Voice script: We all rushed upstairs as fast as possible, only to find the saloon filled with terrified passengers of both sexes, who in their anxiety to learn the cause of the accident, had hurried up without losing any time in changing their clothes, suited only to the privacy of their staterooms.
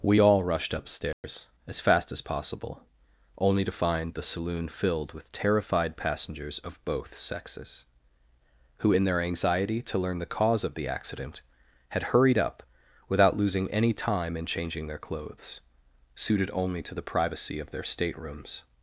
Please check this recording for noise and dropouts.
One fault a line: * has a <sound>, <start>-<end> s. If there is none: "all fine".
* has a dropout, 1.1-1.2 s